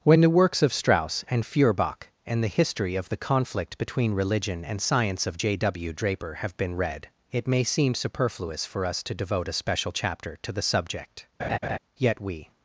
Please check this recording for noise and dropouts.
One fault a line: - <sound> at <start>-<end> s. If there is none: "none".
- laugh at 11.4-11.8 s